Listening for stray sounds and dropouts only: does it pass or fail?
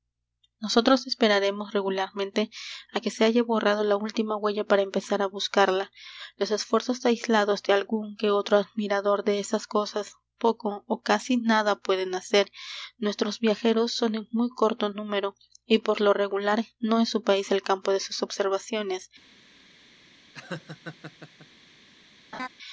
fail